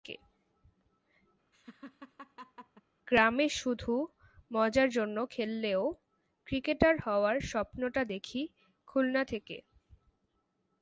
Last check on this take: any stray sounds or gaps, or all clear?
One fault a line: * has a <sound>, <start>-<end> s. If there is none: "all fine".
* has a laugh, 1.5-2.8 s